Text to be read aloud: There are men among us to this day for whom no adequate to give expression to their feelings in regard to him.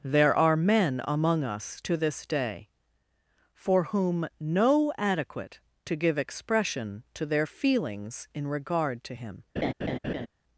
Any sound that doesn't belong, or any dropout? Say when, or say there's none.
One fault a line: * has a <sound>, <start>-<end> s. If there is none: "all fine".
* has a laugh, 9.6-10.3 s